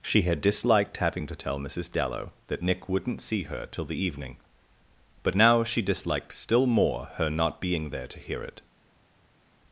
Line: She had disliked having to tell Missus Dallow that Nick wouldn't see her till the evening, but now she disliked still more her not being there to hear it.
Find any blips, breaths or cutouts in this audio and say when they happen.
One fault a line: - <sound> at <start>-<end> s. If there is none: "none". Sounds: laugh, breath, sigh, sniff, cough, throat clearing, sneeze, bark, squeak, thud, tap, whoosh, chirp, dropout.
none